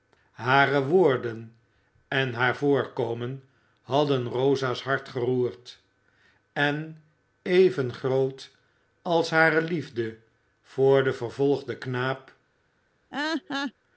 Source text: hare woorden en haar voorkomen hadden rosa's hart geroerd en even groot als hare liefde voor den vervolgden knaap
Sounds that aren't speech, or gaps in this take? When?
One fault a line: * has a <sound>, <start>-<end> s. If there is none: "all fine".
* has a laugh, 13.1-13.7 s